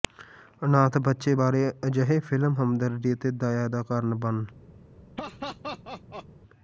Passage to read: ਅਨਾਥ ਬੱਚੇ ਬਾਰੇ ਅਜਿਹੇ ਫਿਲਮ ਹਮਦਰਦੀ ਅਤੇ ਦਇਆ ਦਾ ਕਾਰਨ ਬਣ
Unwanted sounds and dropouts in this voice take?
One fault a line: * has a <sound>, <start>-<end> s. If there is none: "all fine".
* has a laugh, 5.2-6.3 s